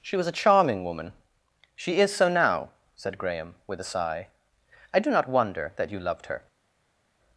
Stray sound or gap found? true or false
false